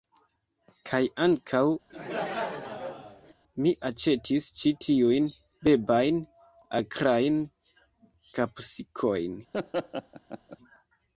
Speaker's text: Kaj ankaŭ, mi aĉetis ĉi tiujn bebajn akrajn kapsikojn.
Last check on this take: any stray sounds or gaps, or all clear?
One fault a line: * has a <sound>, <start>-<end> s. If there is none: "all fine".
* has a laugh, 1.9-3.3 s
* has a laugh, 9.5-10.6 s